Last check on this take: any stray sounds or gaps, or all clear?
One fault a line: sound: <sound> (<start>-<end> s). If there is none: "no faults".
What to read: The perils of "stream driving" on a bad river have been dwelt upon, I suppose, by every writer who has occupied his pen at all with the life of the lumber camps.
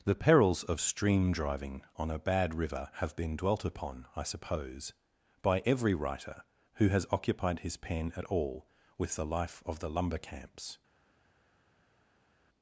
no faults